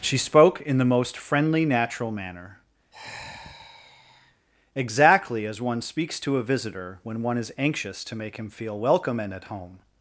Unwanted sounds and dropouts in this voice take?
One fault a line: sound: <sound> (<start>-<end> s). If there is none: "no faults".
sound: sigh (2.9-4.5 s)